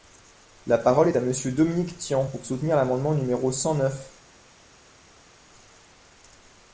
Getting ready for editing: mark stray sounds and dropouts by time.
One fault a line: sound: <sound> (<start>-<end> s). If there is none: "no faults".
no faults